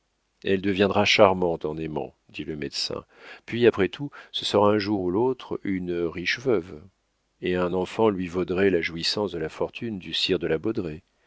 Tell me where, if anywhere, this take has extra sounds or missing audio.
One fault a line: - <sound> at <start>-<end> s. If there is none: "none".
none